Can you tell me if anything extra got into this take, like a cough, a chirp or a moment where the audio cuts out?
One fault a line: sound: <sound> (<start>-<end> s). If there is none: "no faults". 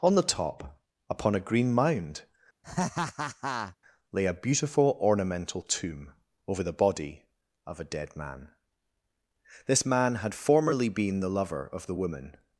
sound: laugh (2.6-3.8 s)